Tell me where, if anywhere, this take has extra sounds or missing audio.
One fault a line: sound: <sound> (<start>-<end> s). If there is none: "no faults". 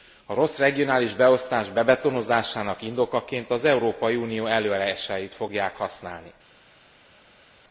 no faults